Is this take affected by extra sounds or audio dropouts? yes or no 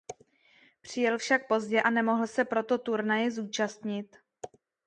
no